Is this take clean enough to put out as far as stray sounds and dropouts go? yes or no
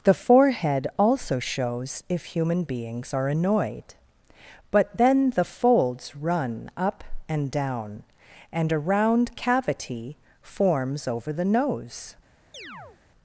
no